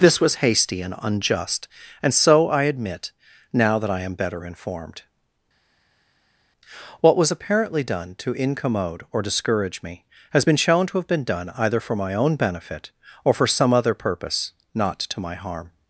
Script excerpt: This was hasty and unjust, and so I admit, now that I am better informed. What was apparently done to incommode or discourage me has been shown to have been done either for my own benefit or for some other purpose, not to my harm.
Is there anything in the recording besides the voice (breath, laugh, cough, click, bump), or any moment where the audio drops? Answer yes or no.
no